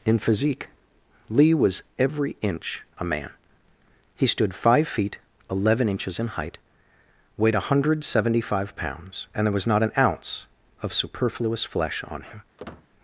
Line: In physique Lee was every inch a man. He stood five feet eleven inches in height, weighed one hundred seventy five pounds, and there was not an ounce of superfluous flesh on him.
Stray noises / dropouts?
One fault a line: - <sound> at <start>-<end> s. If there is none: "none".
- squeak at 12.6-12.9 s